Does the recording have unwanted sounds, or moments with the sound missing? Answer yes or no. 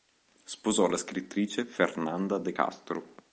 no